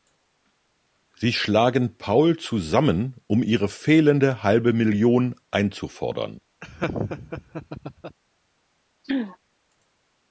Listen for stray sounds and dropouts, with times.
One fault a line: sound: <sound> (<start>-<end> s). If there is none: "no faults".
sound: laugh (6.6-8.2 s)
sound: throat clearing (9.0-9.4 s)